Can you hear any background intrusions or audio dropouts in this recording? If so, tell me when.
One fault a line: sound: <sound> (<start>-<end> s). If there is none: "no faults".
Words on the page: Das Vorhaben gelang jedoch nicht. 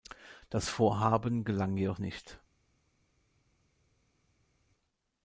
no faults